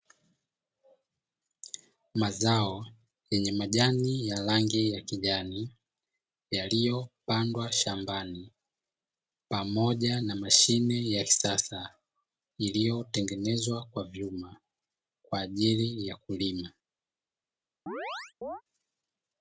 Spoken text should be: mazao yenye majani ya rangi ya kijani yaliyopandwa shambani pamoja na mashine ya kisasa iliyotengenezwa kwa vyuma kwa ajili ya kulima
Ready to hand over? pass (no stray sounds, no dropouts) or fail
fail